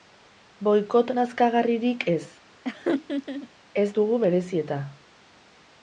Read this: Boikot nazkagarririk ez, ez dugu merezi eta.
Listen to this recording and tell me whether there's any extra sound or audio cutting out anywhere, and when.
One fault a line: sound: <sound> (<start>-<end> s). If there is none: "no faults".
sound: laugh (2.6-3.5 s)